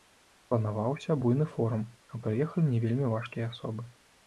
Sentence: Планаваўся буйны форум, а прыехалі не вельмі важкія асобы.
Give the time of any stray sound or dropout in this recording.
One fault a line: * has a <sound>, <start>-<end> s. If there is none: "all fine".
all fine